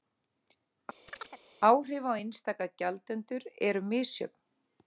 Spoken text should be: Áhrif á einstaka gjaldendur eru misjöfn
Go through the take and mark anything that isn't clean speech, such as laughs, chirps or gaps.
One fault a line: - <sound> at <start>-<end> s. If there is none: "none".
- chirp at 1.1-1.4 s